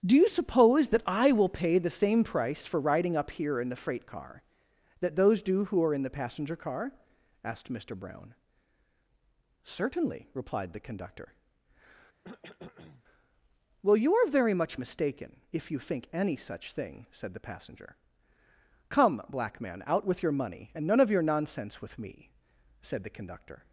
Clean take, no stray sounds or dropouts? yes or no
no